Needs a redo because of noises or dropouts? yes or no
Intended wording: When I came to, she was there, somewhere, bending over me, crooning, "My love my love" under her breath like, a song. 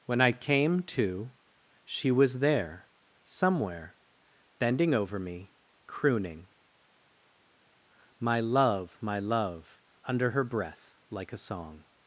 no